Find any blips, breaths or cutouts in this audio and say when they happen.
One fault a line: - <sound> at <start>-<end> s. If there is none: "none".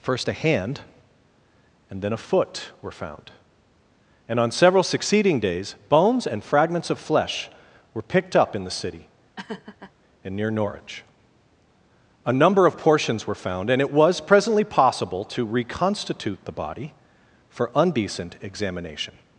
- laugh at 9.4-9.9 s